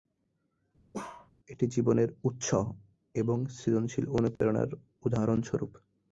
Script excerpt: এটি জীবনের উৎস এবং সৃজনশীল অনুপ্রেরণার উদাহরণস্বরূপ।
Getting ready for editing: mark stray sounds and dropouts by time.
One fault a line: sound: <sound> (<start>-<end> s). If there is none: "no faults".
sound: bark (0.9-1.3 s)
sound: dropout (4.4-4.4 s)